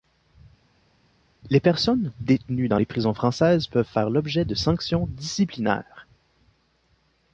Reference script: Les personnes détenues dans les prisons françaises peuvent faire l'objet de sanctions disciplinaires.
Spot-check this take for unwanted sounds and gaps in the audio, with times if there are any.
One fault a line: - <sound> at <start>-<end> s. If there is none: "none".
none